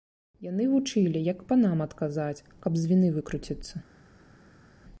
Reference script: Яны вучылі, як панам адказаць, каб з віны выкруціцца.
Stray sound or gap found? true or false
false